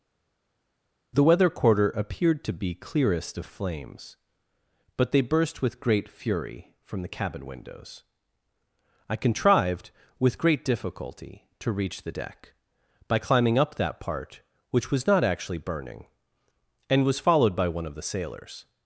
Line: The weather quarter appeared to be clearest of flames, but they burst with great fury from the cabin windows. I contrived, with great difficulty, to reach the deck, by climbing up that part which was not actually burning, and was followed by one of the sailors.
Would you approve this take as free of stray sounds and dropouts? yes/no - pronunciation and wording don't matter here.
yes